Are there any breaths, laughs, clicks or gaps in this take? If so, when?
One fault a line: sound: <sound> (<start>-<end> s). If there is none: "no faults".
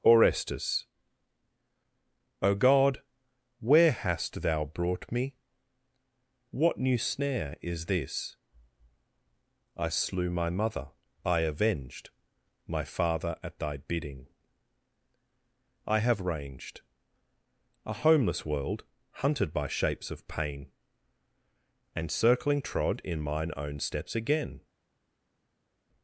no faults